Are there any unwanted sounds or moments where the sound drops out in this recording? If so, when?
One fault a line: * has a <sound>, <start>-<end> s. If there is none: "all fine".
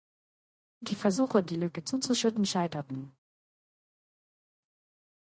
all fine